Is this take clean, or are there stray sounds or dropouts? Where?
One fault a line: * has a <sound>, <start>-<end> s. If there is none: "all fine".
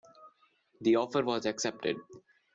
all fine